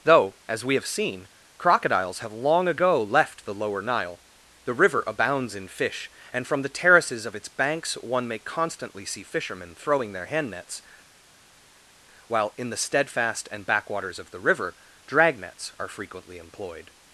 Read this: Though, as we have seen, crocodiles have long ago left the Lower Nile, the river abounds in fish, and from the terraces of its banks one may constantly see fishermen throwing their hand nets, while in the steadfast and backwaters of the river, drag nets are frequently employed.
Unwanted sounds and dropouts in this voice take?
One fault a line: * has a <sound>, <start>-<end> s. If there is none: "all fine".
all fine